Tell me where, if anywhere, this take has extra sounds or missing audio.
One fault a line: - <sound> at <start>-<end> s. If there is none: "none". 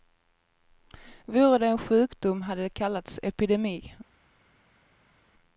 none